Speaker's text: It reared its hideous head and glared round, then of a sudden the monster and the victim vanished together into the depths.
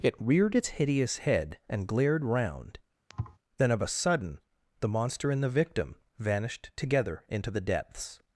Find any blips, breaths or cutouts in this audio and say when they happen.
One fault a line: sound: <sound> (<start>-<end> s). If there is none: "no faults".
sound: thud (3.1-3.4 s)